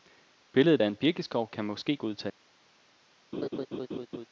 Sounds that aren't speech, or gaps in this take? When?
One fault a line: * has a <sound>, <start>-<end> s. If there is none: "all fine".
* has a laugh, 3.3-4.3 s